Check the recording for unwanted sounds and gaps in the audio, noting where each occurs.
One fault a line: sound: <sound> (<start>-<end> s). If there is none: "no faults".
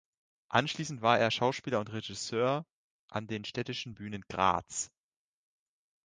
no faults